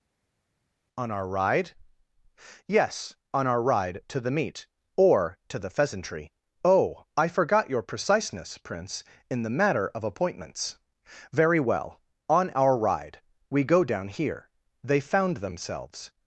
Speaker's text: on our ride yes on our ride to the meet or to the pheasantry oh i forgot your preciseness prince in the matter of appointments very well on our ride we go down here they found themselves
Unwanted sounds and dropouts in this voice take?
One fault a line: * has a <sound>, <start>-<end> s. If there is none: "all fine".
all fine